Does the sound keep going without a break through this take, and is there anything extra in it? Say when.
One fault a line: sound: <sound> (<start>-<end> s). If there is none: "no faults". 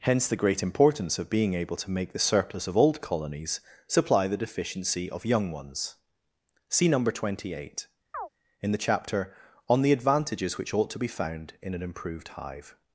sound: chirp (8.1-8.3 s)